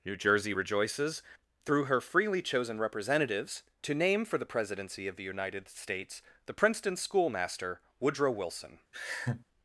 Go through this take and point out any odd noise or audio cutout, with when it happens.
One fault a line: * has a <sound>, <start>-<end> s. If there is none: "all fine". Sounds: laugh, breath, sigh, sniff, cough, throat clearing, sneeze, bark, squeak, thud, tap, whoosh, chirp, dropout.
* has a laugh, 8.9-9.4 s